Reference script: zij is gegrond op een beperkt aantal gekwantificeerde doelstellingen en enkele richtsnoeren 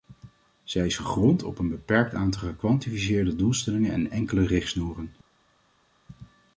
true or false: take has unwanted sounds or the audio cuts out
false